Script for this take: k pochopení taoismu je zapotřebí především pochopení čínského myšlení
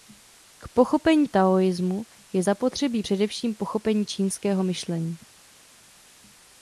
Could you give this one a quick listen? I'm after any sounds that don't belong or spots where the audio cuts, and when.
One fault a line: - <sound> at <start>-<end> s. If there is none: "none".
none